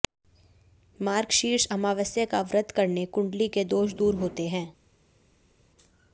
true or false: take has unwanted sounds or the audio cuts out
false